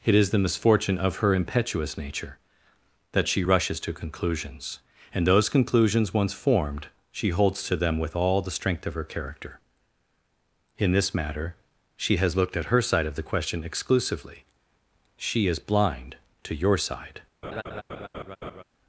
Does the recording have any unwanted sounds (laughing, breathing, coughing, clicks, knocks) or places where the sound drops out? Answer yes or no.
yes